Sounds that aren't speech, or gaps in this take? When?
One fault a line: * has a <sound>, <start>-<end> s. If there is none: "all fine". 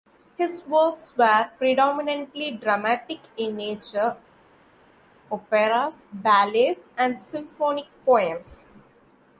all fine